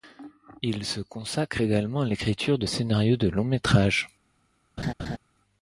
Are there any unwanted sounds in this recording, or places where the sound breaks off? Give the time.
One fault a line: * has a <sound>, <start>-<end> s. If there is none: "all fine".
* has a laugh, 4.8-5.2 s